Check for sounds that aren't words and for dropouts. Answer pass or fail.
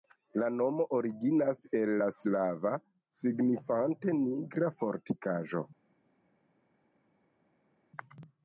pass